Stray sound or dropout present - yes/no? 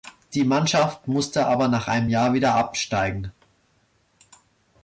no